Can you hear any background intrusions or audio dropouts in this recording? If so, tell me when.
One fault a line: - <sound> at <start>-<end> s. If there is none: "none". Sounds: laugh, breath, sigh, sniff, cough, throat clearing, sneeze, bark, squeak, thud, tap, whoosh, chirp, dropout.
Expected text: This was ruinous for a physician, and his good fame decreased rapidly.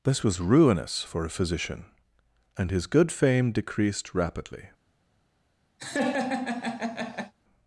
- laugh at 5.8-7.3 s